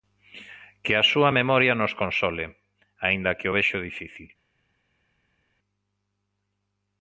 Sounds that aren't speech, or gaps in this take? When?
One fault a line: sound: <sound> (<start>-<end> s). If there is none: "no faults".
no faults